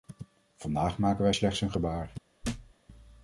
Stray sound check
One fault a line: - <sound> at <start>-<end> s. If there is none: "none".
- thud at 2.4-2.7 s